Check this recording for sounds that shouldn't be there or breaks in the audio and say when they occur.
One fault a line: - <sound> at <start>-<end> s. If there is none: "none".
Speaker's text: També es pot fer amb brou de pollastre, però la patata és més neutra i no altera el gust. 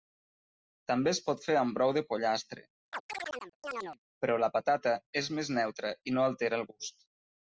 - chirp at 2.9-4.0 s